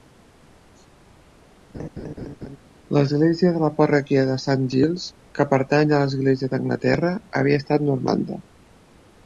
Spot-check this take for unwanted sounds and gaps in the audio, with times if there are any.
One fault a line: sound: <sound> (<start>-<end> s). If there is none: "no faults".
sound: laugh (1.7-2.6 s)